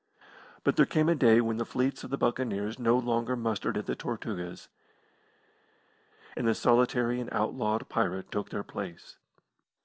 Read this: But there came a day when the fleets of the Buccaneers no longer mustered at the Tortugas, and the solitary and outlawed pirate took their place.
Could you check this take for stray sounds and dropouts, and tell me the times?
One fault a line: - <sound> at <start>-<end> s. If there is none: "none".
none